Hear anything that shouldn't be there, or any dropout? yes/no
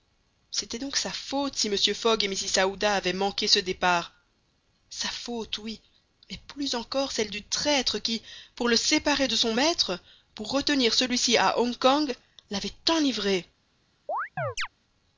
yes